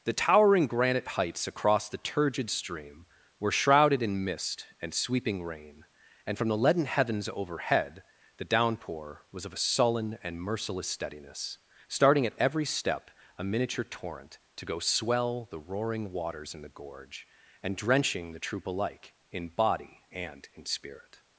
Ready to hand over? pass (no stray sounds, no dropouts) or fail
pass